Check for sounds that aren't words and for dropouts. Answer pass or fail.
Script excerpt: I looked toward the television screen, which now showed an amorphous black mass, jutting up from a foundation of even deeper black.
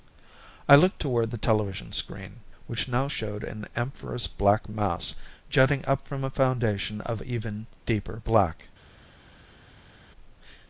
pass